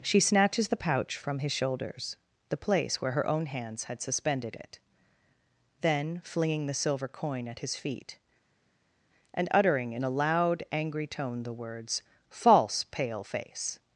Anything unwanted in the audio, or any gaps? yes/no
no